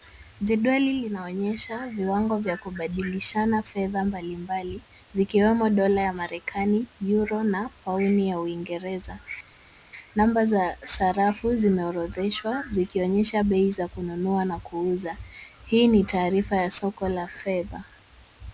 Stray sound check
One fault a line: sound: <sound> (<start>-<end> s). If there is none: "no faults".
no faults